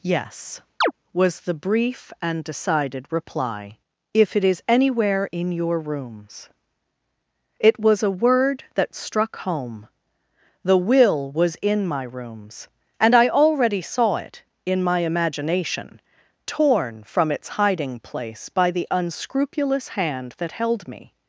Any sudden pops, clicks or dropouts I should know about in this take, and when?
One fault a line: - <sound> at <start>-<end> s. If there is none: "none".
- chirp at 0.8-0.9 s